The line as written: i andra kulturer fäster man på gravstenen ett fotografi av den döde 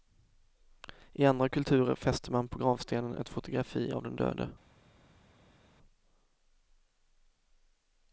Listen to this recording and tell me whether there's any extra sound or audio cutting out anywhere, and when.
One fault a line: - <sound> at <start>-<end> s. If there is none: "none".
none